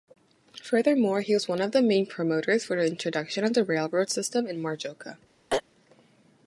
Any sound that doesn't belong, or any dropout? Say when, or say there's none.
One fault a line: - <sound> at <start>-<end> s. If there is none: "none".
- throat clearing at 5.5-5.6 s